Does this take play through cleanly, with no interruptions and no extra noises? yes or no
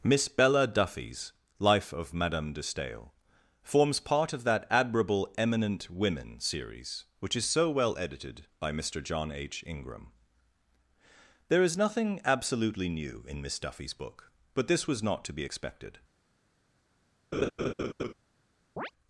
no